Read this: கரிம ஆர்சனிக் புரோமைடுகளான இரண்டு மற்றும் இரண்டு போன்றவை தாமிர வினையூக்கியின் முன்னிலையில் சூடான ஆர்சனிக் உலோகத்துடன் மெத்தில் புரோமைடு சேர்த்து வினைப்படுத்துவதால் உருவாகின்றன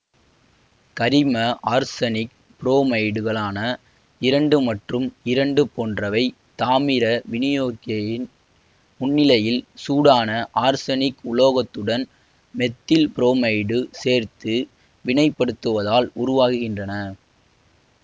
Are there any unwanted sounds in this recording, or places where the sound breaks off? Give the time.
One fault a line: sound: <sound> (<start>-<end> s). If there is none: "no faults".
no faults